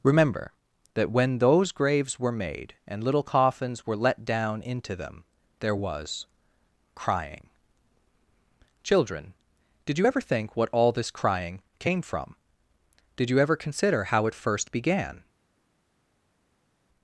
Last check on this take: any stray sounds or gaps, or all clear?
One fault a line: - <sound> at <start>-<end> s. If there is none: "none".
none